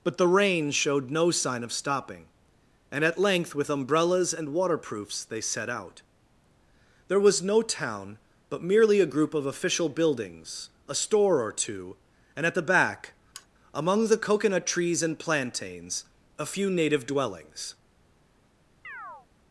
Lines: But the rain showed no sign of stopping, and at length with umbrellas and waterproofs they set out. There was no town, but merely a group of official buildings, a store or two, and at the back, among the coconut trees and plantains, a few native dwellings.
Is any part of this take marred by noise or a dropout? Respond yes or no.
yes